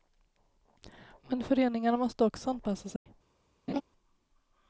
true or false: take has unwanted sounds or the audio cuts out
true